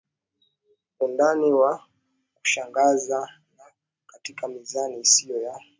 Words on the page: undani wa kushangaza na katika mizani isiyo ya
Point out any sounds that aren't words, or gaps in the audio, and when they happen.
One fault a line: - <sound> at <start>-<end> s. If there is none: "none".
none